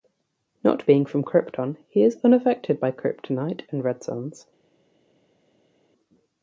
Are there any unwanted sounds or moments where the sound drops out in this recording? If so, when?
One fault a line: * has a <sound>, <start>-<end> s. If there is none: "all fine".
all fine